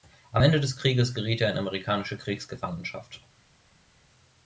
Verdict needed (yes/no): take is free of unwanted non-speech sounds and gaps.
yes